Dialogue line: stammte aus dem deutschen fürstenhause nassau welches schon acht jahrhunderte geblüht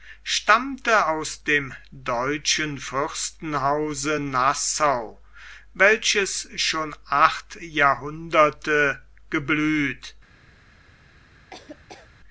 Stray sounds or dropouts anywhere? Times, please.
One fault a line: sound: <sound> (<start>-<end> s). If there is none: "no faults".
sound: laugh (11.5-12.1 s)